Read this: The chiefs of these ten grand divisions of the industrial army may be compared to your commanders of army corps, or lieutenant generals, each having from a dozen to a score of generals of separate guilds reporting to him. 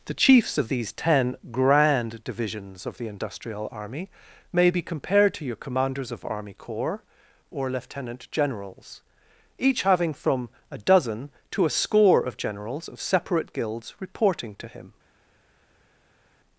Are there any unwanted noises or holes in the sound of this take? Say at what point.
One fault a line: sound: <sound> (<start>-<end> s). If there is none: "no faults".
no faults